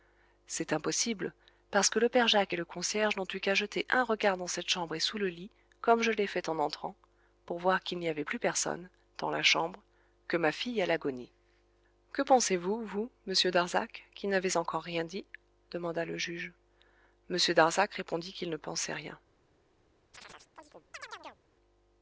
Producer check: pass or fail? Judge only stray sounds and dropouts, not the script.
fail